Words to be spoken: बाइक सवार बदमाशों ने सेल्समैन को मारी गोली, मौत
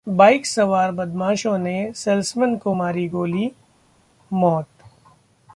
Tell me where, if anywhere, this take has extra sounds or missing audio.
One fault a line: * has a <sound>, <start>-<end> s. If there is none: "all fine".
all fine